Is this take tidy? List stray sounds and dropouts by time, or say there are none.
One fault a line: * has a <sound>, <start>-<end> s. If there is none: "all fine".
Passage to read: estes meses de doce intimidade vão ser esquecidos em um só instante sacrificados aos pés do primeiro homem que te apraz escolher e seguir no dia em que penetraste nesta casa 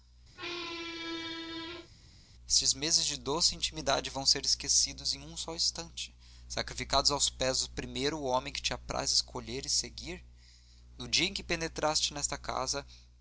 * has a squeak, 0.3-1.9 s